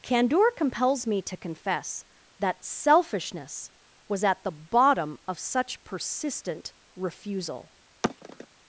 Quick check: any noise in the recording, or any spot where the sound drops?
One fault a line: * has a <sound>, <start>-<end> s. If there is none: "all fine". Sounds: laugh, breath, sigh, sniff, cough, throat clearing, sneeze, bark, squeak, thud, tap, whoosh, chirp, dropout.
* has a sigh, 8.0-8.5 s